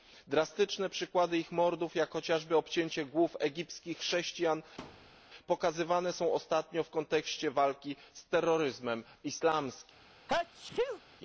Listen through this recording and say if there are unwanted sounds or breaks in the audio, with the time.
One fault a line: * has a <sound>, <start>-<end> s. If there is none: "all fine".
* has a thud, 4.8-5.2 s
* has a sneeze, 10.3-11.0 s